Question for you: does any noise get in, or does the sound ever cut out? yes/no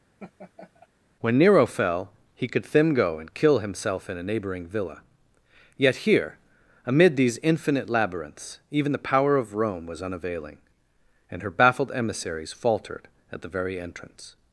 yes